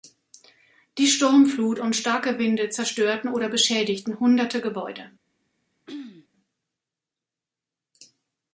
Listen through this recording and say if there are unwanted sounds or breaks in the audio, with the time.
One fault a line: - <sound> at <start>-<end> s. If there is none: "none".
- throat clearing at 5.9-6.3 s